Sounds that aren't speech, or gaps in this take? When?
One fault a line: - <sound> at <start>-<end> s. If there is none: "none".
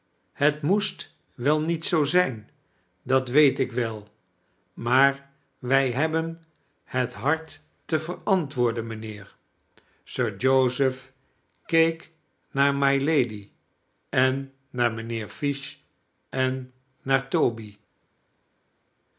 none